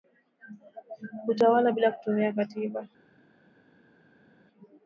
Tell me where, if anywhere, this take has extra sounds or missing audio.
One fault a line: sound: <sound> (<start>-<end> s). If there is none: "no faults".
no faults